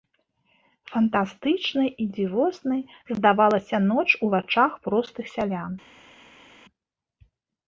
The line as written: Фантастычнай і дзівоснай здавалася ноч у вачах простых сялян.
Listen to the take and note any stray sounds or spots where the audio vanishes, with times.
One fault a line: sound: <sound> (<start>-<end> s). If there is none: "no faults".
no faults